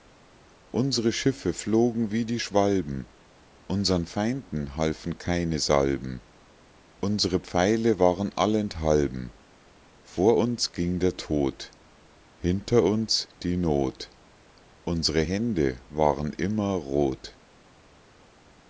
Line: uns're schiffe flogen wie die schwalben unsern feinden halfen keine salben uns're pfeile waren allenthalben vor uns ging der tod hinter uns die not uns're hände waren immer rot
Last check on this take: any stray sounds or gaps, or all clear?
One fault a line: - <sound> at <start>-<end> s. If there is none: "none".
none